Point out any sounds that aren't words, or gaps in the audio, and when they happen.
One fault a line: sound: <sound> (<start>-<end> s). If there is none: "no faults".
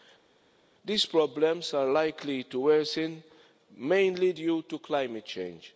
no faults